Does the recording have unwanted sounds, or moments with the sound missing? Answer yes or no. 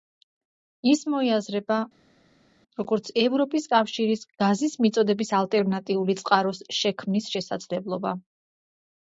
no